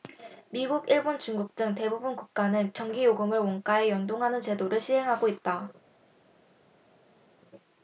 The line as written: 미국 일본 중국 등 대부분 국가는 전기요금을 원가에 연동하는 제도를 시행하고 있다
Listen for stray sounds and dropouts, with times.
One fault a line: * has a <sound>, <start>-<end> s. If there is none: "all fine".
all fine